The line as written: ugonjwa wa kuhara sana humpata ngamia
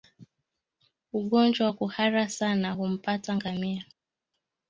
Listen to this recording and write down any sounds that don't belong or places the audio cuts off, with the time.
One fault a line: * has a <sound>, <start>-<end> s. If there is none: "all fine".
all fine